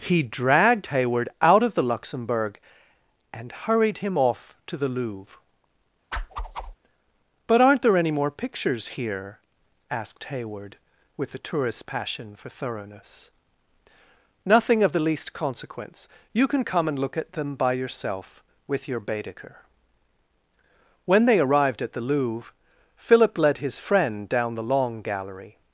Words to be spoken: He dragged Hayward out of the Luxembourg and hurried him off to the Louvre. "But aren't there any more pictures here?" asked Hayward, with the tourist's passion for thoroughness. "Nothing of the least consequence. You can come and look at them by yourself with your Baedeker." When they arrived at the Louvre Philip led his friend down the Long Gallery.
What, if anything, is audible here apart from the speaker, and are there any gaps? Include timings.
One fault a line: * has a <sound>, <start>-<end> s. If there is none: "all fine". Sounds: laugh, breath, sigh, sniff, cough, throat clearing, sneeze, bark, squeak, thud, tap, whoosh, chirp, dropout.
* has a whoosh, 6.1-6.8 s